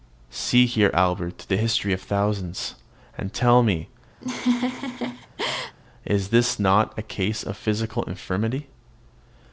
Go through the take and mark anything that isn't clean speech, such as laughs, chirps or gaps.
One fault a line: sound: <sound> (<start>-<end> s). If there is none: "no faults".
sound: laugh (4.2-5.8 s)